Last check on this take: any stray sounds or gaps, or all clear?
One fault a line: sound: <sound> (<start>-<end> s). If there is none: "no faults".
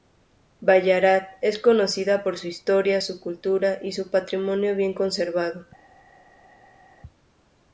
no faults